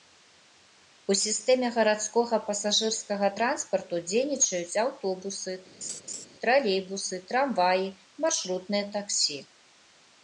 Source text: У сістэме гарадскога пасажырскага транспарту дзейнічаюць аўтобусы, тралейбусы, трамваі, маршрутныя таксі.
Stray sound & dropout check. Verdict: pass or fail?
fail